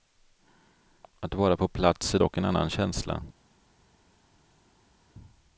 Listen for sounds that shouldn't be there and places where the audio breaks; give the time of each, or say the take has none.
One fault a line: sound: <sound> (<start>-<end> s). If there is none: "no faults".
no faults